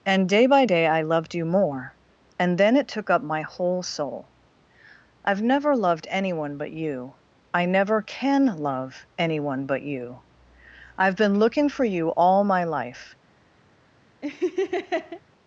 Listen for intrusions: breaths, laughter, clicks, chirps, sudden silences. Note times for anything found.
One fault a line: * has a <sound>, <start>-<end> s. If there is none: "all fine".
* has a laugh, 14.2-15.2 s